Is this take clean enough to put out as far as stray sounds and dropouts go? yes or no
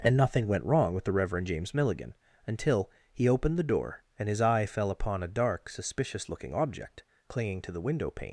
yes